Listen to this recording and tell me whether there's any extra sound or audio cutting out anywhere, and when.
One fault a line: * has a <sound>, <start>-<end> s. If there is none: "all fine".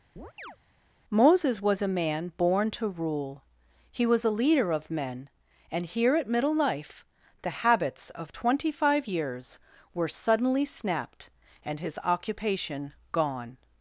* has a chirp, 0.2-0.6 s